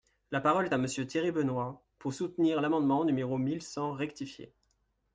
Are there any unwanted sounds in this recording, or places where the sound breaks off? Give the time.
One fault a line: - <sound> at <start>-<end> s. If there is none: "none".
none